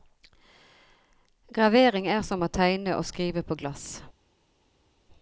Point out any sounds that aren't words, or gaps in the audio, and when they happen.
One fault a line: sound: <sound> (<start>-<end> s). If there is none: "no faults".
no faults